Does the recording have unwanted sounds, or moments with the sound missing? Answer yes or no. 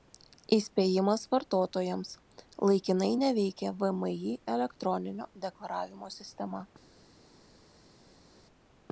no